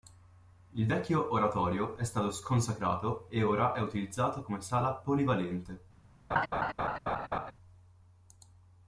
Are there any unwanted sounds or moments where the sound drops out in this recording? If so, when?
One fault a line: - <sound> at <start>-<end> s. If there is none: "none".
- laugh at 6.3-7.5 s